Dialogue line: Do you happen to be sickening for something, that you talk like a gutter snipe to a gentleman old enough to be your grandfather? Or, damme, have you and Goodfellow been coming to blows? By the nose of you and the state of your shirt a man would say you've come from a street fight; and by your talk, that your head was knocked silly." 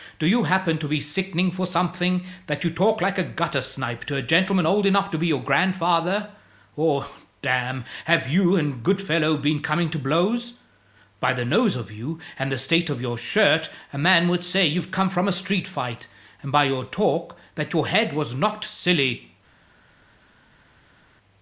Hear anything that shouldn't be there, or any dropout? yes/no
no